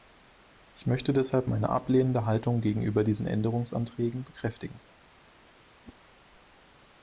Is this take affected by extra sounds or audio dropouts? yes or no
yes